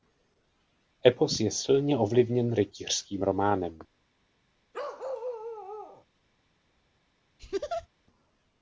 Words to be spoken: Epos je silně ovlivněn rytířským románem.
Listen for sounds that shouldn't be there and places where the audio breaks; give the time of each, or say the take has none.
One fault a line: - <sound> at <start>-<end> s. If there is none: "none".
- bark at 4.7-6.1 s
- laugh at 7.4-7.9 s